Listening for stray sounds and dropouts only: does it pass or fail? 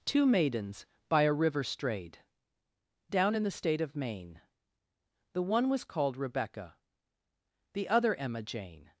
pass